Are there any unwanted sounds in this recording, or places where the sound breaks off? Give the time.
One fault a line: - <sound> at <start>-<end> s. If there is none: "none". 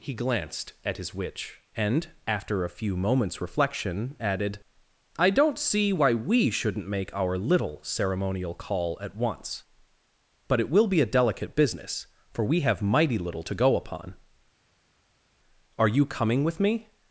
none